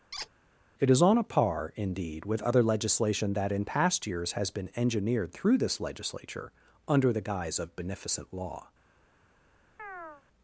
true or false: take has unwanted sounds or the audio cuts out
true